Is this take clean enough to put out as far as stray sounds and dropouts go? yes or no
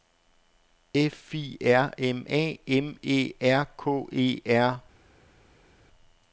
yes